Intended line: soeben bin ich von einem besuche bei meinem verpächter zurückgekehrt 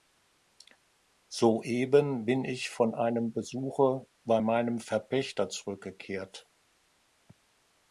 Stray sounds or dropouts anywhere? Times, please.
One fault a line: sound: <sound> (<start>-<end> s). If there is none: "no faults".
no faults